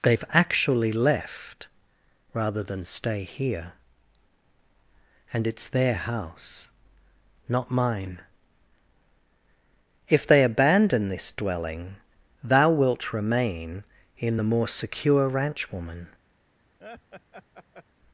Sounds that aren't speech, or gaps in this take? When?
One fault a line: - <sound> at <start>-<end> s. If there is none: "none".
- laugh at 16.8-17.8 s